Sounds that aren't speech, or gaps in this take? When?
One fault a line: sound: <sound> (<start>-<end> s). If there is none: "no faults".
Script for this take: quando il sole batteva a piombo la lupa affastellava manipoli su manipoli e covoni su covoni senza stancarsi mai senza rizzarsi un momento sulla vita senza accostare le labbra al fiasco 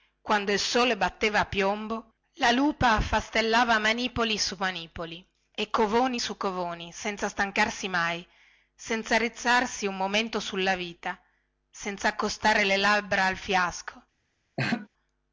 sound: laugh (14.6-14.9 s)